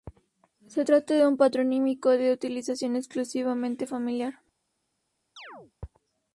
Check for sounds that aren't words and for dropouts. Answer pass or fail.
fail